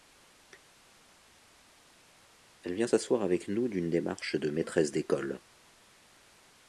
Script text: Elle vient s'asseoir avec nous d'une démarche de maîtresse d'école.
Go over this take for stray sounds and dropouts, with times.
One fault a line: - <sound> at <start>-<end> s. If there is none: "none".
none